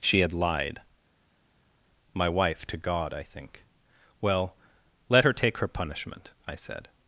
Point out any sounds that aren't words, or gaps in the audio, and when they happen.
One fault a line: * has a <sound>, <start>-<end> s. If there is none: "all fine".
all fine